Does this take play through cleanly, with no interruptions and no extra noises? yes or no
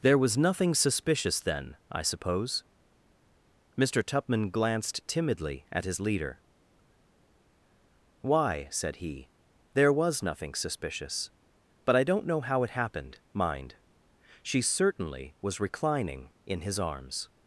yes